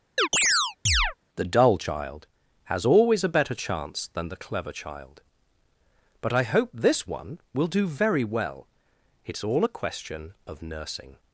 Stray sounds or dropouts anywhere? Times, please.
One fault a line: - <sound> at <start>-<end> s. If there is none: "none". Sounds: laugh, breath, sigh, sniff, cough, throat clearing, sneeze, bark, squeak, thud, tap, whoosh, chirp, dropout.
- chirp at 0.2-1.1 s